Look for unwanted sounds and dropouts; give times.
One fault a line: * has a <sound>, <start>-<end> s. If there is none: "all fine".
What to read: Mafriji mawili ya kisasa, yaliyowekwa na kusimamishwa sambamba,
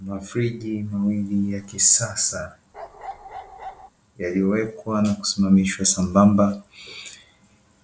* has a bark, 2.7-3.9 s